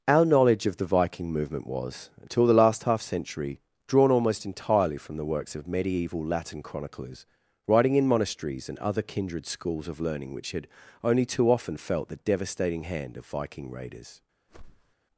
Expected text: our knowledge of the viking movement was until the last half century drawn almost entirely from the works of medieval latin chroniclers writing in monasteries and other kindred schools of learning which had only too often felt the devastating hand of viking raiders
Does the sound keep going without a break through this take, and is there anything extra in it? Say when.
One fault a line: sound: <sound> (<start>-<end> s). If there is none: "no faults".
sound: whoosh (14.5-15.0 s)